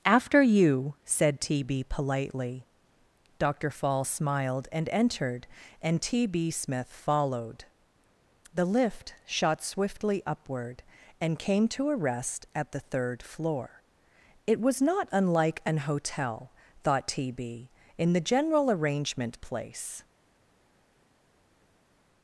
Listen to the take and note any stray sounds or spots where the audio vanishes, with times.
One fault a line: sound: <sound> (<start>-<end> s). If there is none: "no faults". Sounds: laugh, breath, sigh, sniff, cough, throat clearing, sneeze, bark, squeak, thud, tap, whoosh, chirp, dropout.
no faults